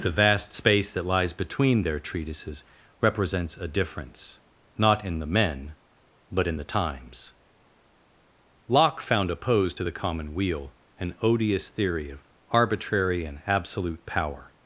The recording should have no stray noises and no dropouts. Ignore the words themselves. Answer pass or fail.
pass